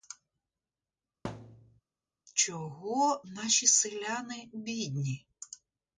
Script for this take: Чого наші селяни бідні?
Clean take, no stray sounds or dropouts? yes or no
no